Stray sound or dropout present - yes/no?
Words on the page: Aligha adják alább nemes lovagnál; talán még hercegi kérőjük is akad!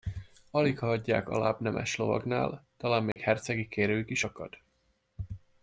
yes